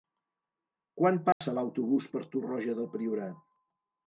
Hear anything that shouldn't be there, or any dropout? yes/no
yes